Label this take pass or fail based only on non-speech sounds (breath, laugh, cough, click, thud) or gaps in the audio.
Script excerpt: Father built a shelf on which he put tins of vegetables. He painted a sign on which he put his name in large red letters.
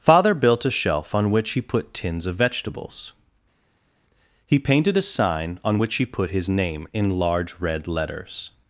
pass